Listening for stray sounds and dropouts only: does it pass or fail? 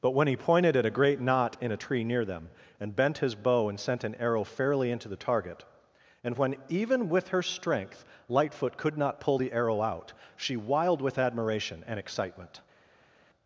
pass